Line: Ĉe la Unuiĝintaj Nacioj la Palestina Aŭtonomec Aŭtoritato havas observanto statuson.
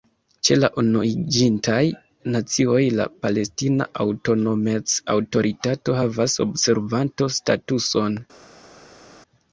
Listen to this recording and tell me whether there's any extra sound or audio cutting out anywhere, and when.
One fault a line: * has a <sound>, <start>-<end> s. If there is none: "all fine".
all fine